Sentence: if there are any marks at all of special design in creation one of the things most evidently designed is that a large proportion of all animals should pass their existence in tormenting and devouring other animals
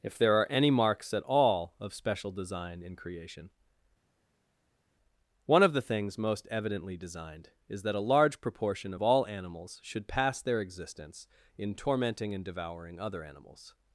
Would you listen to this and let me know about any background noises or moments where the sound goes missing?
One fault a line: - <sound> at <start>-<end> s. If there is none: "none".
none